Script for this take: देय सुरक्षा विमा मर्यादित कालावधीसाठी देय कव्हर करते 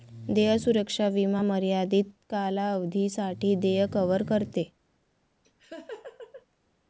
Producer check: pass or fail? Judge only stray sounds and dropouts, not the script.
fail